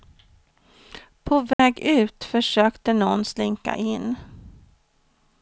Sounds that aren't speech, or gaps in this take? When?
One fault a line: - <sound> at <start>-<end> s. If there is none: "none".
- dropout at 1.5-1.6 s